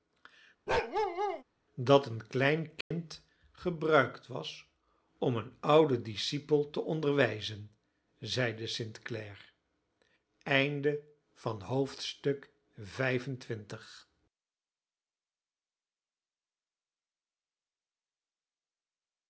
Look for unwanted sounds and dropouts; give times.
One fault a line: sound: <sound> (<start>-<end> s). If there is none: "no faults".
sound: bark (0.7-1.4 s)
sound: dropout (2.8-2.9 s)